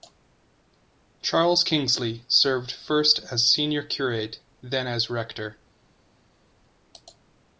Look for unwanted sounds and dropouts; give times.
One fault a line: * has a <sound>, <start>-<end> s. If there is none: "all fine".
all fine